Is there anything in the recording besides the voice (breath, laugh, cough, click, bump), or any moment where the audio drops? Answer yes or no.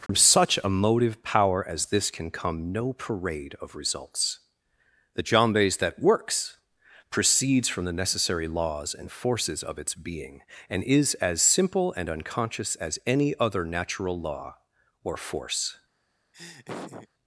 yes